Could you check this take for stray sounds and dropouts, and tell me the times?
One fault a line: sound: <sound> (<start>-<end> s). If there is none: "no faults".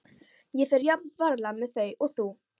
no faults